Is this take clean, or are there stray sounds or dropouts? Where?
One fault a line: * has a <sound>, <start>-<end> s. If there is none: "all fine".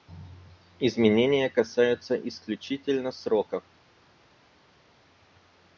all fine